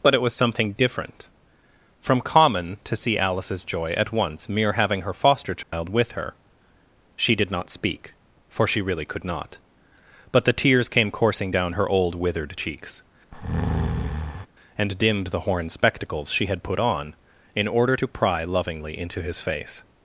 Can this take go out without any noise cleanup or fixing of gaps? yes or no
no